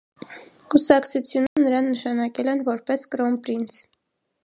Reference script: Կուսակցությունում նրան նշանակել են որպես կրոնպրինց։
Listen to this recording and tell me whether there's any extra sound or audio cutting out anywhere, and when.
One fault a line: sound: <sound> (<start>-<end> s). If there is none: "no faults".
sound: dropout (1.5-1.6 s)